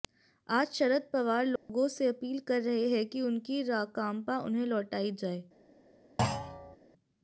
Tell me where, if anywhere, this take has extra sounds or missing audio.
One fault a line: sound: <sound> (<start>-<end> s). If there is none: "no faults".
sound: dropout (1.6-1.7 s)
sound: thud (6.2-6.8 s)